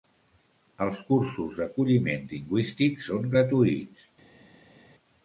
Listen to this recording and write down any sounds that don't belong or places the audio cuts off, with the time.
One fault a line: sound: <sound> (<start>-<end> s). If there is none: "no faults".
no faults